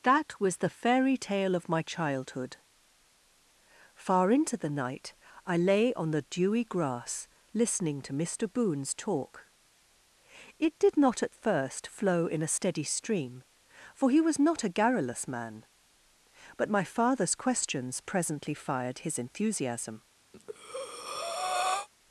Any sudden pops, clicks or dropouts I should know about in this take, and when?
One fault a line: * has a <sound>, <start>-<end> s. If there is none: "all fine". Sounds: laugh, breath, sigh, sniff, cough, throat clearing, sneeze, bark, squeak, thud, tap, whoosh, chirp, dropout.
* has a breath, 20.3-21.9 s